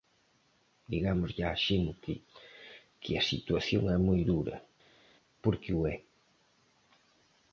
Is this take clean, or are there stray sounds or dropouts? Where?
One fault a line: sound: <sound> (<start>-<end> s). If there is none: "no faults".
no faults